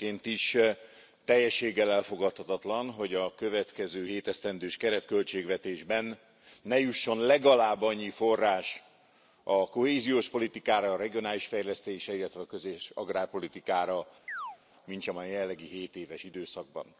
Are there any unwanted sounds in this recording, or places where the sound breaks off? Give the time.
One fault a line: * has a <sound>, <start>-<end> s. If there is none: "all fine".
* has a chirp, 14.3-14.6 s